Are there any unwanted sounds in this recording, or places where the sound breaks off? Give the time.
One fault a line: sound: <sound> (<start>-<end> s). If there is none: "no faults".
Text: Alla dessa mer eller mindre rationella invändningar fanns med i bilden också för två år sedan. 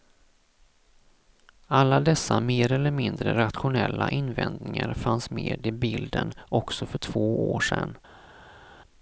no faults